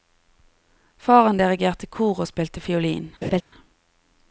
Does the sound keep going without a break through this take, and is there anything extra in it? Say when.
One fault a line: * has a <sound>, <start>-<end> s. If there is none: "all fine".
* has a laugh, 3.2-3.4 s